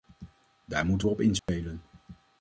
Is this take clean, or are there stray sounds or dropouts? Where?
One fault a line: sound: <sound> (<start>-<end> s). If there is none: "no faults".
sound: dropout (1.4-1.5 s)